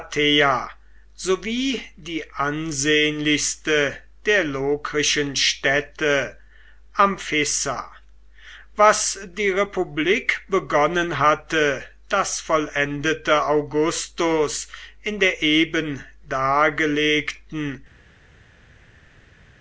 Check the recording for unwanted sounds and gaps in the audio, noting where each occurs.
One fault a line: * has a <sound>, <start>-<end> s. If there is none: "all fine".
all fine